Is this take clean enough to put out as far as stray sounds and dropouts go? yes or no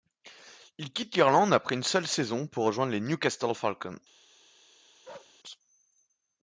no